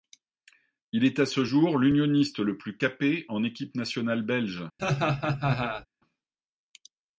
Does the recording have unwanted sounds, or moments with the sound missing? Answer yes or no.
yes